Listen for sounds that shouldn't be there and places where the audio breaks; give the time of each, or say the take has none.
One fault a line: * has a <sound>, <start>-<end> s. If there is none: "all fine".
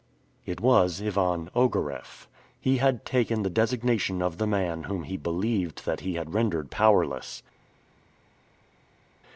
all fine